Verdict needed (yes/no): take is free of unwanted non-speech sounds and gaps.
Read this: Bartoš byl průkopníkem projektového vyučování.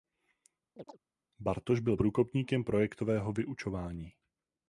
no